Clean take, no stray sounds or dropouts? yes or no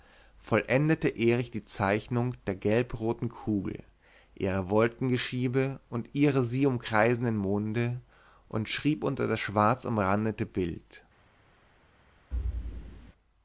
no